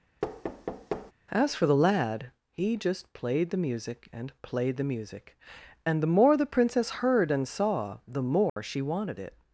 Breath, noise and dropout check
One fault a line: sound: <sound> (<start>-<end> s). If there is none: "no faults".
sound: thud (0.2-1.1 s)
sound: dropout (8.5-8.6 s)